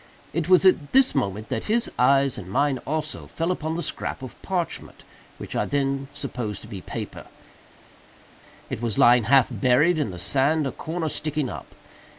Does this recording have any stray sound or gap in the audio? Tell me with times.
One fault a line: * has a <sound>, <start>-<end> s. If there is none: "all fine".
all fine